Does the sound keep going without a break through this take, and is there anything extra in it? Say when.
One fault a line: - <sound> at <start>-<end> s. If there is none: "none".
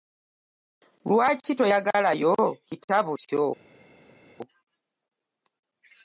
none